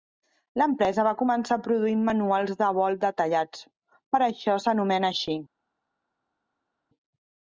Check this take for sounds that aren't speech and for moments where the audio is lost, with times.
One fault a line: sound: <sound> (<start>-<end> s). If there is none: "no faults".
no faults